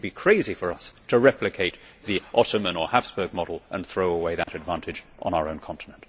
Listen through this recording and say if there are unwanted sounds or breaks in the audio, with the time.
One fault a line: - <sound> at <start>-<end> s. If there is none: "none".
- dropout at 4.4-4.5 s